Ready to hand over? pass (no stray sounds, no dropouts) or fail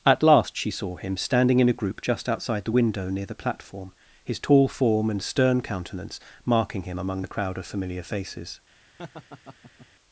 fail